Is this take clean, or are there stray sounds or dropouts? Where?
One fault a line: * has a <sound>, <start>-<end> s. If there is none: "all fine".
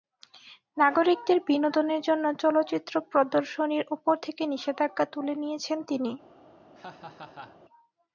* has a laugh, 6.7-7.6 s